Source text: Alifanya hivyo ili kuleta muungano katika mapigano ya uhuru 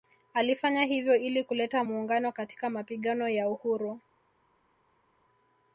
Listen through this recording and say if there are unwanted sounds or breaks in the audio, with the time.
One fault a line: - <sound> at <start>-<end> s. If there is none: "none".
none